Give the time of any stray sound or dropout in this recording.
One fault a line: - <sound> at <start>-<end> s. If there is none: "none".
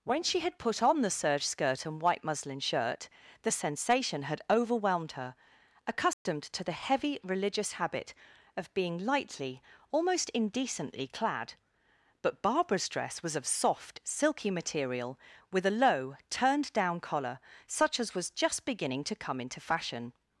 - dropout at 6.1-6.3 s